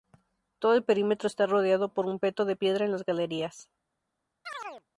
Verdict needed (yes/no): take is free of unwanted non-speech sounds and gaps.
no